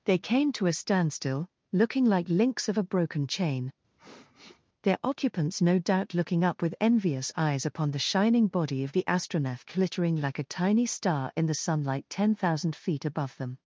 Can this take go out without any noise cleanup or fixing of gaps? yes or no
no